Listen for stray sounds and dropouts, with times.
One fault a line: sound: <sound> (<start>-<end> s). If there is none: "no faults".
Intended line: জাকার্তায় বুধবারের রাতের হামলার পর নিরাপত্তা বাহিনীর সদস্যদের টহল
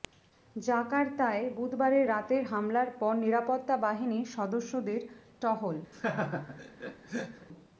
sound: laugh (5.9-7.5 s)